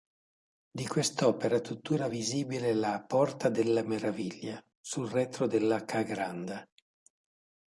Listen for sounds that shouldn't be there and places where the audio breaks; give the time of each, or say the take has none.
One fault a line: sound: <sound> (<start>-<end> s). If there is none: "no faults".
no faults